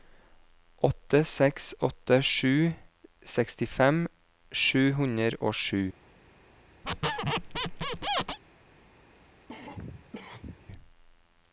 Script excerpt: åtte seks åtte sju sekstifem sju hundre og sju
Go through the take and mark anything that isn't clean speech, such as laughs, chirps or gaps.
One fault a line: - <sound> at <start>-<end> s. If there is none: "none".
- squeak at 6.8-8.4 s
- cough at 9.5-10.7 s